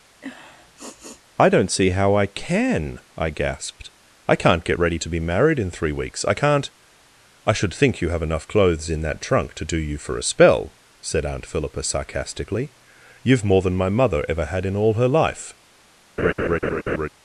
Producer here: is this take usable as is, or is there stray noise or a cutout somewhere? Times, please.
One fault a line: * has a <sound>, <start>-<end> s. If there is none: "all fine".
* has a sniff, 0.2-1.2 s
* has a laugh, 16.2-17.1 s